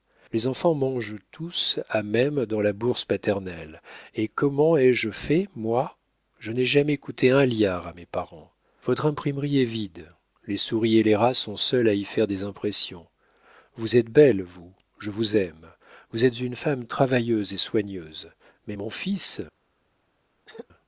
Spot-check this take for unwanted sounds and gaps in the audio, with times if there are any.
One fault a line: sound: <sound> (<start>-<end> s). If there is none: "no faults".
sound: throat clearing (20.5-20.7 s)